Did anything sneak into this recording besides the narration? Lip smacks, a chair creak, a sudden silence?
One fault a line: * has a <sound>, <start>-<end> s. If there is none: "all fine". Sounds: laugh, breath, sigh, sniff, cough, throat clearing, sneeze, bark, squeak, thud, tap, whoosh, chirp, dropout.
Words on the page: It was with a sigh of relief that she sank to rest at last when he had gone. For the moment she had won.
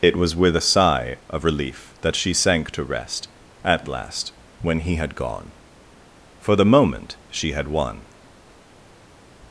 all fine